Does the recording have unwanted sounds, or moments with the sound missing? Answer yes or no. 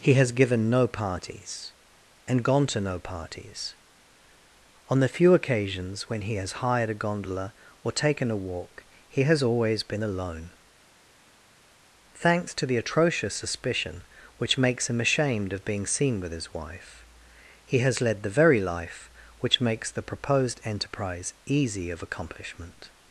no